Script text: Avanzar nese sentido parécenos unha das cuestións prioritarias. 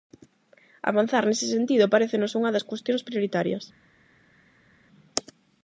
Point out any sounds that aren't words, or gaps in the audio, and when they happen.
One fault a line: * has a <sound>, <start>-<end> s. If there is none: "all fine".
all fine